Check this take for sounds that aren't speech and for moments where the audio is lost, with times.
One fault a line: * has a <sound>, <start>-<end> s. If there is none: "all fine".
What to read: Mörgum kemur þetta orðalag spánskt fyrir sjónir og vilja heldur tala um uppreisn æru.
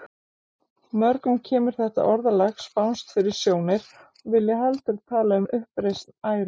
all fine